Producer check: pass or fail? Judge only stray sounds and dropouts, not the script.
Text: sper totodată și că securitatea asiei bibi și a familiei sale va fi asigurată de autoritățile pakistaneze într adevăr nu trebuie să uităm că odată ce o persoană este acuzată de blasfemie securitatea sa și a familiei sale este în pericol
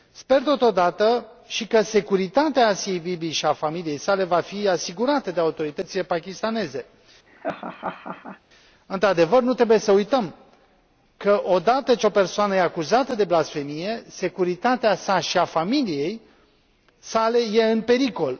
fail